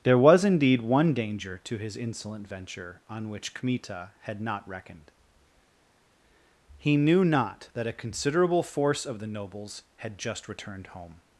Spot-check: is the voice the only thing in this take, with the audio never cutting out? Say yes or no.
yes